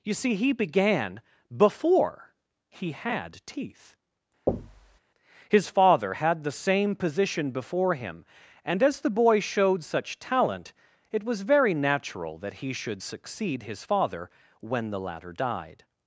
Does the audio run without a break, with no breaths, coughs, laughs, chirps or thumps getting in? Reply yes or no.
no